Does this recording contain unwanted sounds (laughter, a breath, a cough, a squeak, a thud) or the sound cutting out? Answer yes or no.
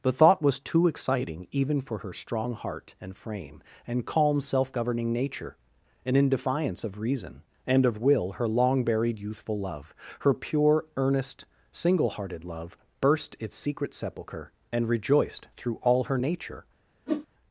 yes